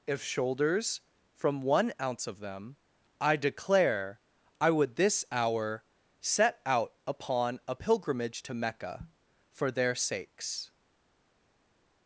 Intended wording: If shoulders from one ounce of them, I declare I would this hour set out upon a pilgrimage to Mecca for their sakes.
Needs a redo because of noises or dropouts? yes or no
no